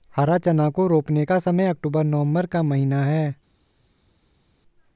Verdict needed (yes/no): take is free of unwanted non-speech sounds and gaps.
yes